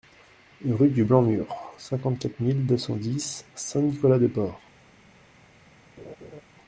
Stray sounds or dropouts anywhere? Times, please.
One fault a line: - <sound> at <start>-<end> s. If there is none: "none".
- laugh at 6.0-6.4 s